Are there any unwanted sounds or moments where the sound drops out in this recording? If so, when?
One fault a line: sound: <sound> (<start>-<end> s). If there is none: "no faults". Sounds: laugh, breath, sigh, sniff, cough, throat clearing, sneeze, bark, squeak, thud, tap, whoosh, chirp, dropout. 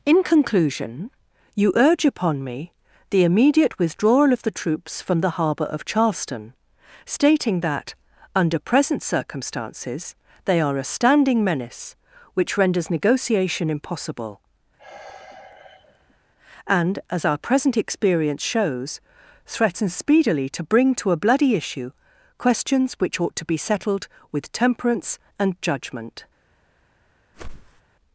sound: sigh (14.8-16.2 s)
sound: whoosh (27.3-27.8 s)